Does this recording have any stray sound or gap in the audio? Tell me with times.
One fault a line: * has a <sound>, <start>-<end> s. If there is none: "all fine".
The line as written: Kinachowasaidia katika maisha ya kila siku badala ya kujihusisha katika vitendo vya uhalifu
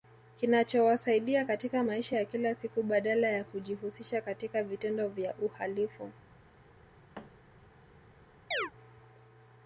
* has a thud, 7.1-7.3 s
* has a chirp, 8.5-8.7 s